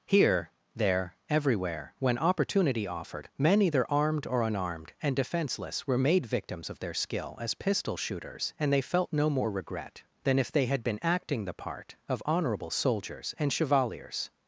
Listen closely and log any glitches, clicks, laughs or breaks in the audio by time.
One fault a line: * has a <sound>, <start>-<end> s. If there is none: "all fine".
all fine